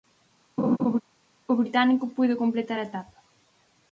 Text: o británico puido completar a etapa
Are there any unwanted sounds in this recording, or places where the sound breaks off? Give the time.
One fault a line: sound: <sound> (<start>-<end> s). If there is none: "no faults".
sound: laugh (0.6-1.0 s)